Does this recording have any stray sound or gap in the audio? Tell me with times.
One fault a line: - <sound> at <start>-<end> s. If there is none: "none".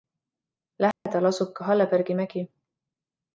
- dropout at 0.9-1.1 s